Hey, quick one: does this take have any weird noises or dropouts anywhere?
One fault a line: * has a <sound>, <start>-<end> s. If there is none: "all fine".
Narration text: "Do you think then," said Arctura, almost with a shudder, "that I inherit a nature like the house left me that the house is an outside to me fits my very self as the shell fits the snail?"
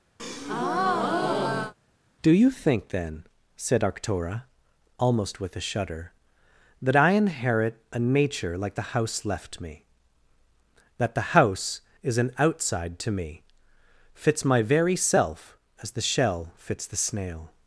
* has a breath, 0.2-1.7 s